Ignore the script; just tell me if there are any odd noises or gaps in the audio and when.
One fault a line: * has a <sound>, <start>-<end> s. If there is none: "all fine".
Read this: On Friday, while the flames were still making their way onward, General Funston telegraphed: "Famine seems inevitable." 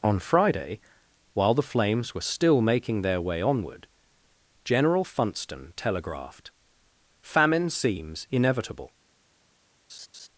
* has a laugh, 9.9-10.3 s